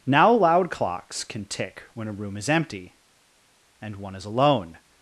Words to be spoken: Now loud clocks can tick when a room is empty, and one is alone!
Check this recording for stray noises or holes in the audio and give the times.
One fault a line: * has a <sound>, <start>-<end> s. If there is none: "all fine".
all fine